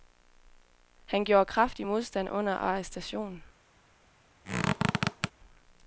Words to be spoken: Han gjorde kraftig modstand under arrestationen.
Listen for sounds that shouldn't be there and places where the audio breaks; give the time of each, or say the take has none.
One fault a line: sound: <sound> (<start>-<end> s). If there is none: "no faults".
sound: squeak (4.4-5.3 s)